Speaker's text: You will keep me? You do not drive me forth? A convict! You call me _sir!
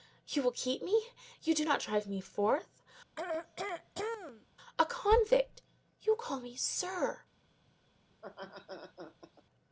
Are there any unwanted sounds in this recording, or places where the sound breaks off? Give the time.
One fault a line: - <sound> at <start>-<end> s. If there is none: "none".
- throat clearing at 3.2-4.5 s
- laugh at 8.1-9.4 s